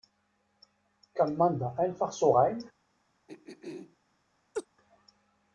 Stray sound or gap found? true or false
true